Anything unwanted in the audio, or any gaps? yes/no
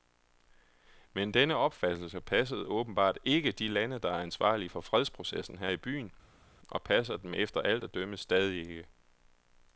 no